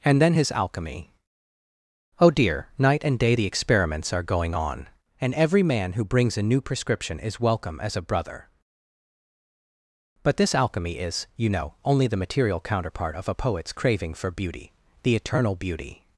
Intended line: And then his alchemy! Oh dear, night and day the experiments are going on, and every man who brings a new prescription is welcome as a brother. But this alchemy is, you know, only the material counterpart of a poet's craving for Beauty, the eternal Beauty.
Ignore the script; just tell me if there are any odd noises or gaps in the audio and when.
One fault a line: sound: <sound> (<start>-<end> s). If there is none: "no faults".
no faults